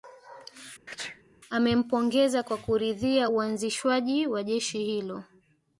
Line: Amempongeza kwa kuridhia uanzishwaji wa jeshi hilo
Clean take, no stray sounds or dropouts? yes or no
no